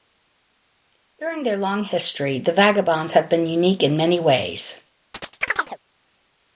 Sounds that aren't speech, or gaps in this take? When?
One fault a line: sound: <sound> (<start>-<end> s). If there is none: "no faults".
sound: chirp (5.1-5.8 s)